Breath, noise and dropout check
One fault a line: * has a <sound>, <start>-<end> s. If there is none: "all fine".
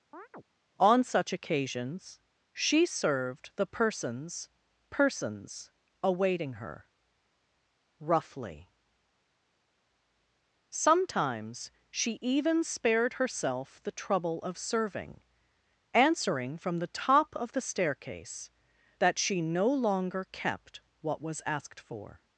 * has a chirp, 0.1-0.4 s